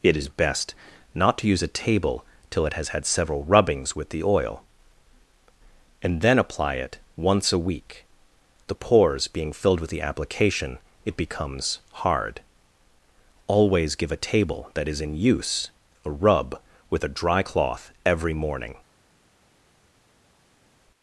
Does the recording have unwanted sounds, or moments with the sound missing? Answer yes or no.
no